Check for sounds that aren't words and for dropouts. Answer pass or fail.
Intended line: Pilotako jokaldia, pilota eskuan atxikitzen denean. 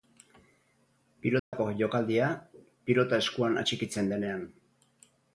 fail